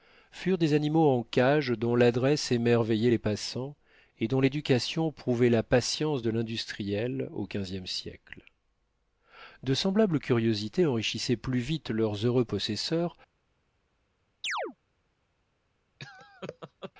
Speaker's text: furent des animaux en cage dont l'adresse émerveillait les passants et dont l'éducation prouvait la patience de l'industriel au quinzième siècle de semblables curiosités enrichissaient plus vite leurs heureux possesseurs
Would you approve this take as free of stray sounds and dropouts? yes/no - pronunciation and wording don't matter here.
no